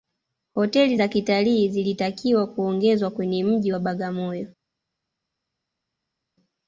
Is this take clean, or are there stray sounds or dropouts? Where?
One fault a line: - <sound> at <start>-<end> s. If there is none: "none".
none